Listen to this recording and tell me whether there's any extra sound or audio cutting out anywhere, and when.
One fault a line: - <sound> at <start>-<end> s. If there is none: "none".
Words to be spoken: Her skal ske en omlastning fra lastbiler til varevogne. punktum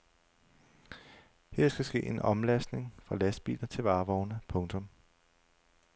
none